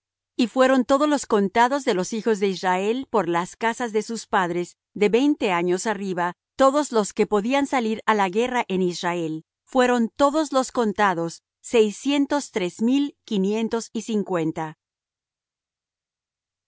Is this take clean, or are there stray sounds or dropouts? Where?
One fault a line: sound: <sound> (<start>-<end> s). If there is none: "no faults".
no faults